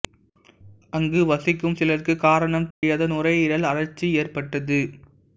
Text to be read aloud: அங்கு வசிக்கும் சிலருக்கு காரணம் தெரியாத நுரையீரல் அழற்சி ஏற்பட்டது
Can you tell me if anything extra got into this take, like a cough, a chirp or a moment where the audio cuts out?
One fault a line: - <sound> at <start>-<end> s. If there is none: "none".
- dropout at 2.7-2.8 s